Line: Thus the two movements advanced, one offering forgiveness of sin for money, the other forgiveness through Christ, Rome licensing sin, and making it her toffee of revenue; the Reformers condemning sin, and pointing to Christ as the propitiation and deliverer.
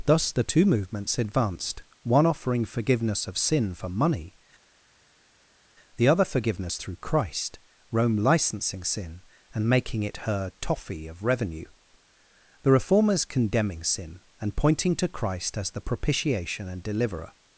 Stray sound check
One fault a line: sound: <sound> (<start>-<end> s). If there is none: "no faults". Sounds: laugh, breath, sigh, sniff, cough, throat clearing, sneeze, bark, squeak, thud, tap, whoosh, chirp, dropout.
no faults